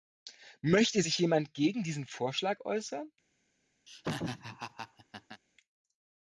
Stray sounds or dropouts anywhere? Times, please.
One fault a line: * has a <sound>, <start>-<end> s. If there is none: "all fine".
* has a laugh, 3.9-5.4 s